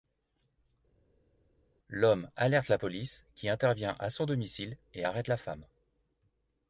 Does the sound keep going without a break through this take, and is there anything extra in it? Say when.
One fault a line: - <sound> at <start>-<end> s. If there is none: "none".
none